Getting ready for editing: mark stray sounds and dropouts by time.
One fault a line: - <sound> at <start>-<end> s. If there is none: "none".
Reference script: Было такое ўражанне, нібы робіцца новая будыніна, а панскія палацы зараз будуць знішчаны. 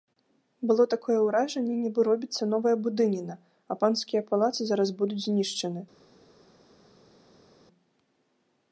none